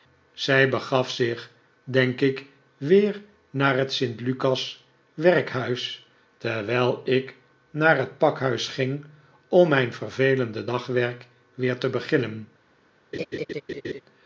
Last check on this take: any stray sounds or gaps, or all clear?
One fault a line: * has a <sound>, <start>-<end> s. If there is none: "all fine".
* has a laugh, 13.1-14.0 s